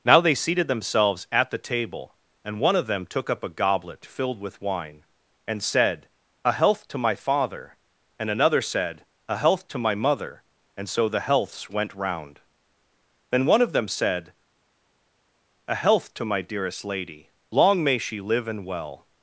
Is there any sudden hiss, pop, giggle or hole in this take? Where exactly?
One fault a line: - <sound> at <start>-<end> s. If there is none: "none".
none